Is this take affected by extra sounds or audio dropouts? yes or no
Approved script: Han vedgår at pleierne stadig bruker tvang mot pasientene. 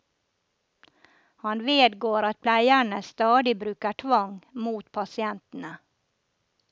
no